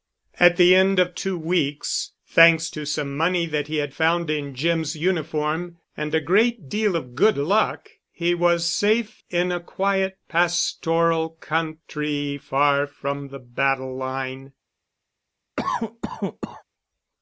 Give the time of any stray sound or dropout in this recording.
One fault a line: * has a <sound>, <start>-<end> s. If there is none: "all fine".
* has a cough, 15.6-16.6 s